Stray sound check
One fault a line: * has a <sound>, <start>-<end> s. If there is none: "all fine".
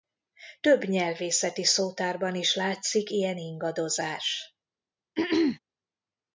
* has a throat clearing, 5.2-5.6 s